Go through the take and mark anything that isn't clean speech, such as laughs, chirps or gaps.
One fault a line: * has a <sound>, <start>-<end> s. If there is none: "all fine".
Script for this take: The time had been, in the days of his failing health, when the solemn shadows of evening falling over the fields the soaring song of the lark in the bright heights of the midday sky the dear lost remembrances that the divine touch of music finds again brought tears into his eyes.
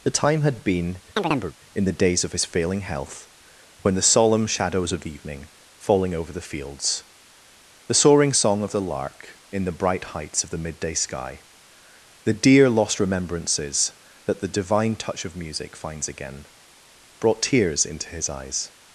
* has a chirp, 1.2-1.6 s